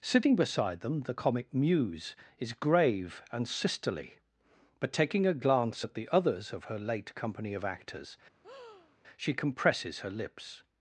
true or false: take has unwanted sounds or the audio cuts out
true